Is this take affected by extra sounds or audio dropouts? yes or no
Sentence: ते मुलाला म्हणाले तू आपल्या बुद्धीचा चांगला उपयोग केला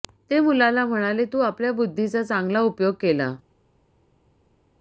no